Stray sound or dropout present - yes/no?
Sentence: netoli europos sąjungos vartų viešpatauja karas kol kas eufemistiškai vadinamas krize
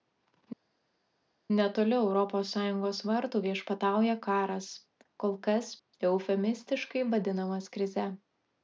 no